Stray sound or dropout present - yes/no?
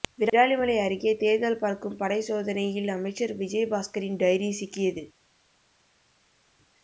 no